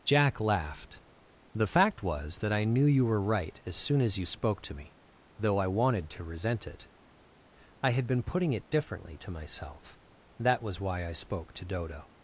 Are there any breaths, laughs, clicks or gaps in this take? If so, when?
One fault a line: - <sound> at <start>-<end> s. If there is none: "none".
none